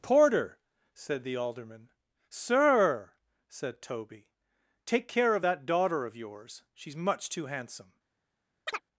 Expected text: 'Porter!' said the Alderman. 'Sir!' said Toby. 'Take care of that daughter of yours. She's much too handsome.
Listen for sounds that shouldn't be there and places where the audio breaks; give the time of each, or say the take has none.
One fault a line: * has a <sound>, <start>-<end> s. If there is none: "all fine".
* has a chirp, 8.7-8.8 s